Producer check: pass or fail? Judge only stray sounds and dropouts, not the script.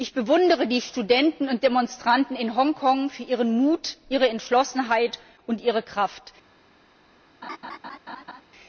fail